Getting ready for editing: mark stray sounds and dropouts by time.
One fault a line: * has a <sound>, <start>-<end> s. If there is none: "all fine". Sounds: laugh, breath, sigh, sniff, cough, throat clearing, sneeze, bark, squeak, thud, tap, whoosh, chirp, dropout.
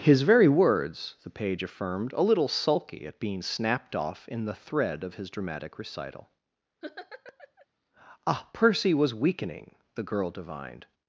* has a laugh, 6.8-7.7 s